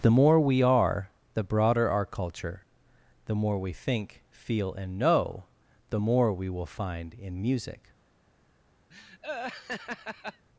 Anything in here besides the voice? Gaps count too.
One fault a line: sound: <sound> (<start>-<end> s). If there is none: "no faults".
sound: laugh (8.9-10.5 s)